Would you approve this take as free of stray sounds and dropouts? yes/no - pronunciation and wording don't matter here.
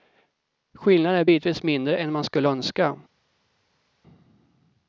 yes